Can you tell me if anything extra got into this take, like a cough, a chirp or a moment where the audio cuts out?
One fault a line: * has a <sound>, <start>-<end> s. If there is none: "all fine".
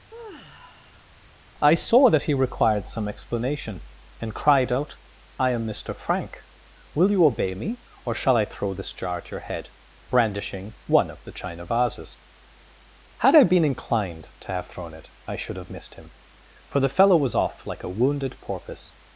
* has a sigh, 0.1-1.1 s